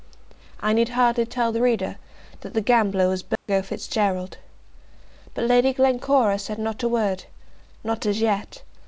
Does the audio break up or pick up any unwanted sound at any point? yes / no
yes